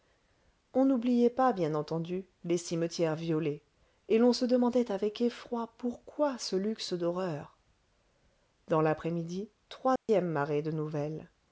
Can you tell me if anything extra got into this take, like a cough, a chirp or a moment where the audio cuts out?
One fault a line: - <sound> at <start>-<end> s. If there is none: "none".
- dropout at 10.0-10.1 s